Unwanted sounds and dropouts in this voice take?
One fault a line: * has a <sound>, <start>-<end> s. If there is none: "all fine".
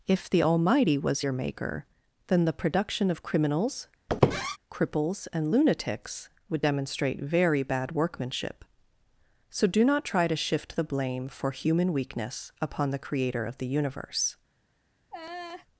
* has a squeak, 4.1-4.6 s
* has a laugh, 15.1-15.7 s